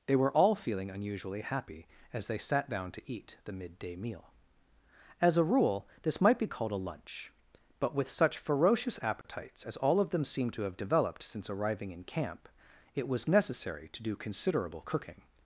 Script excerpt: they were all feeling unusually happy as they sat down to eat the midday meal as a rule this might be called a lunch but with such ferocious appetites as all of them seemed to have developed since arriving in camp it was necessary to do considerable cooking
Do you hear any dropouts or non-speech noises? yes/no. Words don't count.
yes